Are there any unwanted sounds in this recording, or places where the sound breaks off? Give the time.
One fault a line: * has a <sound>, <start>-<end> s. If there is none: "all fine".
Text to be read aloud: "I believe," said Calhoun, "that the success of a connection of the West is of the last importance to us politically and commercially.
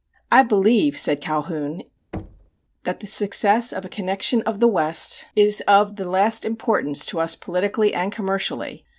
* has a thud, 2.1-2.5 s